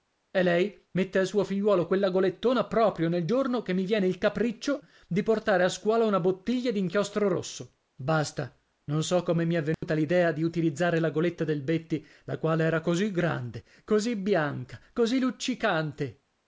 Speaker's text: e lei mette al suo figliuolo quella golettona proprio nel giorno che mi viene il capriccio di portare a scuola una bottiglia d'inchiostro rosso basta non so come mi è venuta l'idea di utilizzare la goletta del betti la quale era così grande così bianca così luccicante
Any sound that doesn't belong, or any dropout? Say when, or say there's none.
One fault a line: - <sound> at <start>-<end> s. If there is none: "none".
- dropout at 9.7-9.8 s